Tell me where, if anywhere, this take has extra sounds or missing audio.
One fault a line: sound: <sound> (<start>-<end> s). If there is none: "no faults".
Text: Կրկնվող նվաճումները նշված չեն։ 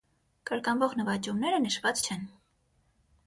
no faults